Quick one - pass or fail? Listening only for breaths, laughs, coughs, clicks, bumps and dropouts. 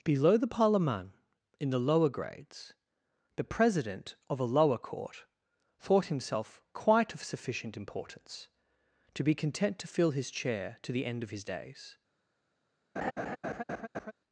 fail